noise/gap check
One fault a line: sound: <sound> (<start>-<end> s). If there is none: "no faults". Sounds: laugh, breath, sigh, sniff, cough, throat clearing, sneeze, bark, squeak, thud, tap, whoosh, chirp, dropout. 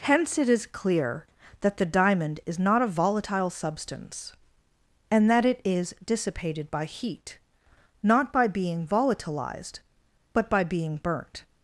no faults